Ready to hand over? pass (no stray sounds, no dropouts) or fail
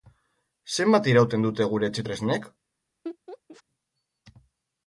fail